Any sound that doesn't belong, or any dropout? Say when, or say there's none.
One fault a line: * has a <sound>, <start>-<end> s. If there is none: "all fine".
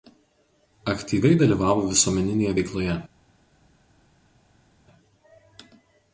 all fine